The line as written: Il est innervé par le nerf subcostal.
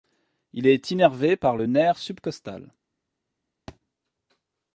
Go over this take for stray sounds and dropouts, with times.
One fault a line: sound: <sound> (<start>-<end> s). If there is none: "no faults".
sound: thud (3.7-3.8 s)